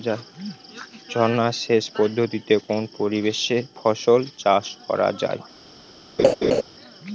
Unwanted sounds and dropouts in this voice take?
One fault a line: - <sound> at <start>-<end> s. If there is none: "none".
- laugh at 6.2-6.6 s